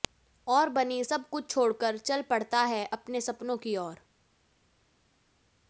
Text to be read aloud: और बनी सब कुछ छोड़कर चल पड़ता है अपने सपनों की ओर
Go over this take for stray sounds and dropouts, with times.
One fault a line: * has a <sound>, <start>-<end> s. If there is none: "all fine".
all fine